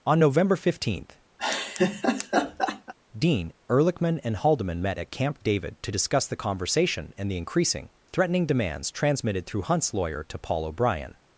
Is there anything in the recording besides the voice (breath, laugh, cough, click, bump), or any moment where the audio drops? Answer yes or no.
yes